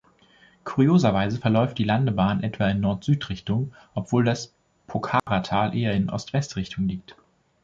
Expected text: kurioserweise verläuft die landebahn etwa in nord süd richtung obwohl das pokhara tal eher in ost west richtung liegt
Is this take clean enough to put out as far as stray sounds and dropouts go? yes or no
no